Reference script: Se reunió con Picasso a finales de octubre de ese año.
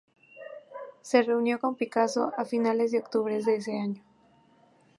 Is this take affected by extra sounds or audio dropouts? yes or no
no